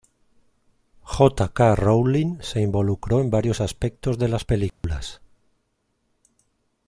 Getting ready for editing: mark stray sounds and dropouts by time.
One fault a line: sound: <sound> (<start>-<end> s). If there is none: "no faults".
sound: dropout (4.7-4.8 s)